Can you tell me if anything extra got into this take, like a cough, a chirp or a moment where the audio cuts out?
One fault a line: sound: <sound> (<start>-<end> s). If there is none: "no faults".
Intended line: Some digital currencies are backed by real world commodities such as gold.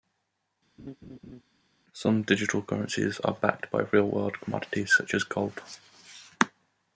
sound: laugh (0.8-1.4 s)